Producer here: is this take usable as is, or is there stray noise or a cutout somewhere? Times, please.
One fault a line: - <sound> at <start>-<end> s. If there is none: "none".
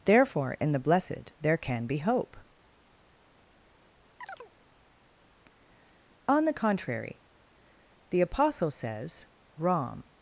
- chirp at 4.2-4.5 s